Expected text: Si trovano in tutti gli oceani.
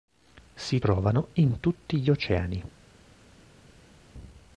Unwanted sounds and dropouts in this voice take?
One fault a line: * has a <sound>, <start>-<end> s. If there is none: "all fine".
all fine